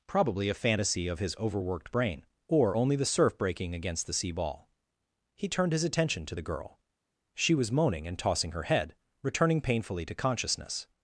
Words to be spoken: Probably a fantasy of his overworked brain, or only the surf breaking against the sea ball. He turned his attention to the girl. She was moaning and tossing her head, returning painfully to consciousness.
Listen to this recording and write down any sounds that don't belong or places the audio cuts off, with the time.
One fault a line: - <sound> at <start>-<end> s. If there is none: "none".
none